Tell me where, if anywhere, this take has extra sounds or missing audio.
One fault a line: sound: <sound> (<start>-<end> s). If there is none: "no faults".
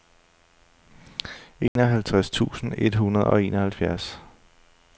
sound: dropout (1.7-1.8 s)